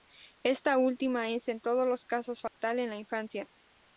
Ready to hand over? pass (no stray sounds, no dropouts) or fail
fail